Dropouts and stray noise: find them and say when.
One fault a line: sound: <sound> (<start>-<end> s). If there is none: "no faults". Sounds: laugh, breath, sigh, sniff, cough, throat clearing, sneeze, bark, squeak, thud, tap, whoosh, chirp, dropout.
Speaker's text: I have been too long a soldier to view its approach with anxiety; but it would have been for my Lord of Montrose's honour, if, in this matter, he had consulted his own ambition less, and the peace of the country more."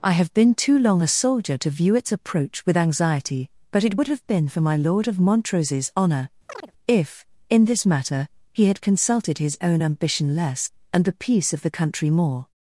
sound: chirp (6.5-6.7 s)